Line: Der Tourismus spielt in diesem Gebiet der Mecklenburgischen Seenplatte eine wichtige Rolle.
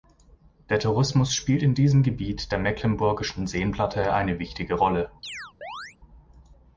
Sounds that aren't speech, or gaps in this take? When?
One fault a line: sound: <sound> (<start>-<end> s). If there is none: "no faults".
sound: chirp (5.2-6.0 s)